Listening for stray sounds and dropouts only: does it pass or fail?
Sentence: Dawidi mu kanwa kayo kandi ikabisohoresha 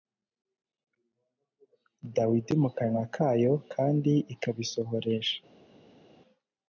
pass